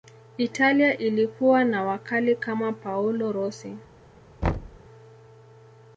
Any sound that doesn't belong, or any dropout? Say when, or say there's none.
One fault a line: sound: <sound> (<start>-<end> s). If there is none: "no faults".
sound: thud (4.4-4.8 s)